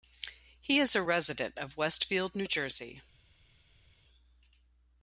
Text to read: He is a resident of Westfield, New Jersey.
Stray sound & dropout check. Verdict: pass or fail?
pass